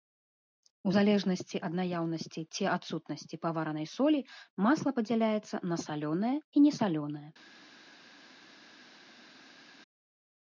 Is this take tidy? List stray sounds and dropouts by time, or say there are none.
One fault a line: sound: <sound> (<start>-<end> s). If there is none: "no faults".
no faults